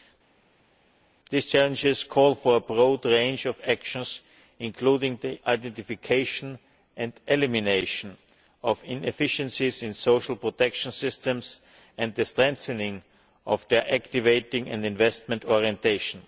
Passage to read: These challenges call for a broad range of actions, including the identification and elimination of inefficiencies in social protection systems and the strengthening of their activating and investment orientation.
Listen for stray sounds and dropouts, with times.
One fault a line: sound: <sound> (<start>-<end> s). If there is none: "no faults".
no faults